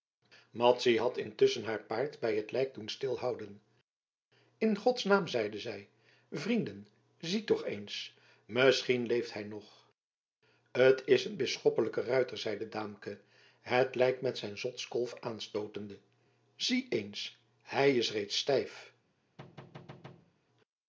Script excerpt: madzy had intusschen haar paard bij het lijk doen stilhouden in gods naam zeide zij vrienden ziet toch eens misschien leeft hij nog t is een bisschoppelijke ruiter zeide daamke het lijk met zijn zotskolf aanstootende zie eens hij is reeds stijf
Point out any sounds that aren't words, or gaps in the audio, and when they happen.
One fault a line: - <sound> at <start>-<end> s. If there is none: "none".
- thud at 19.4-20.3 s